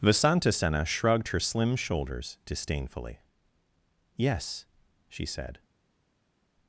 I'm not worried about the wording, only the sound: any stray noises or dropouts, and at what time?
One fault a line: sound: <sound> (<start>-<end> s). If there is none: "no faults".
no faults